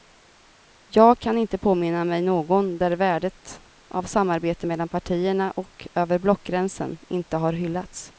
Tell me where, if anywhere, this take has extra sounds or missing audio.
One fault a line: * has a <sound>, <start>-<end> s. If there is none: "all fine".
all fine